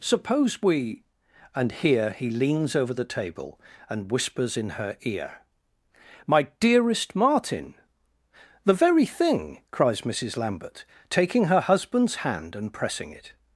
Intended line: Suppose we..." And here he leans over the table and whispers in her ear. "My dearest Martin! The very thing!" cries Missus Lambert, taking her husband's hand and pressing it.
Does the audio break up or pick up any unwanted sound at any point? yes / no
no